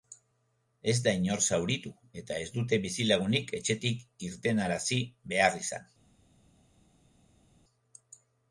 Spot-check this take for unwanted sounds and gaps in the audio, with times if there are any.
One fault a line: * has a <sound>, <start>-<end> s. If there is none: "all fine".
all fine